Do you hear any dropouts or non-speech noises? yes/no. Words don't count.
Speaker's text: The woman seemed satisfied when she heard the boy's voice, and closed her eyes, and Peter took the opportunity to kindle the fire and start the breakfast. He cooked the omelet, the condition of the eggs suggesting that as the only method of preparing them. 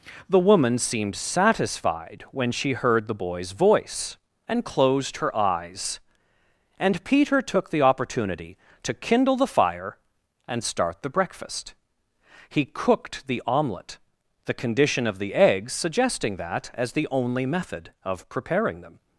no